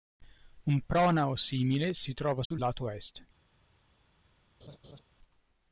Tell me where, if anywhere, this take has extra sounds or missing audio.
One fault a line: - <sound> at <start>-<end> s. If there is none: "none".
- dropout at 2.5-2.5 s
- laugh at 4.6-5.0 s